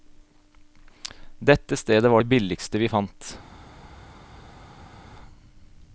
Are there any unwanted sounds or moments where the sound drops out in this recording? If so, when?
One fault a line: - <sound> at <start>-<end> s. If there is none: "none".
none